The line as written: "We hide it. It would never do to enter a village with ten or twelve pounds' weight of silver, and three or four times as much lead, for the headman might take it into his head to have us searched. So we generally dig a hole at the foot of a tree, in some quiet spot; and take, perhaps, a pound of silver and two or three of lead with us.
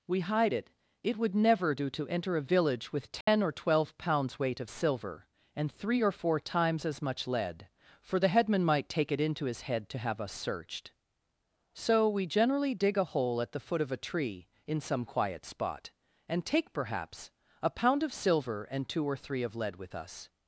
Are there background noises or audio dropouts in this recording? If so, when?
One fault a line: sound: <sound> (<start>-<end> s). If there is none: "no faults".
sound: dropout (3.2-3.3 s)